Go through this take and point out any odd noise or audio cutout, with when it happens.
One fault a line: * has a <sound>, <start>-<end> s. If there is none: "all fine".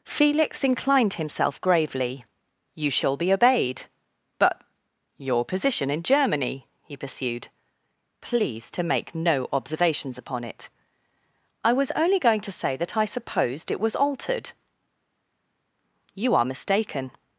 all fine